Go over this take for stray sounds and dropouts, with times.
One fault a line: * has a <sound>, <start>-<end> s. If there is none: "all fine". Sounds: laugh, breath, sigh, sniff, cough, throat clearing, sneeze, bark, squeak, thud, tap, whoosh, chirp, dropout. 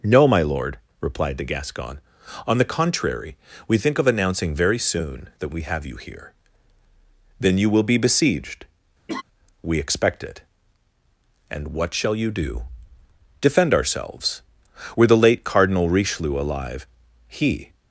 * has a laugh, 9.1-9.2 s